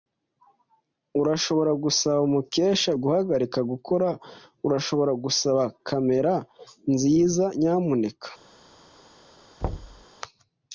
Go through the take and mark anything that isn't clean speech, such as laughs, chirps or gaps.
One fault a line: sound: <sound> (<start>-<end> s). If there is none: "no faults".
sound: thud (9.6-10.1 s)